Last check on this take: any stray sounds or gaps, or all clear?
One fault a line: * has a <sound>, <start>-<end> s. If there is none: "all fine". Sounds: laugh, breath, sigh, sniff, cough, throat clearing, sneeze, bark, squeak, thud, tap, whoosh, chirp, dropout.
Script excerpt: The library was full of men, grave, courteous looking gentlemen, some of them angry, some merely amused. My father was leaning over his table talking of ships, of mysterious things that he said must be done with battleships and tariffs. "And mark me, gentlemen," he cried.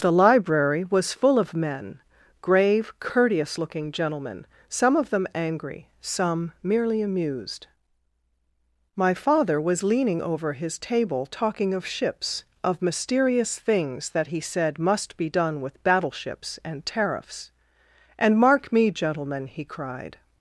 all fine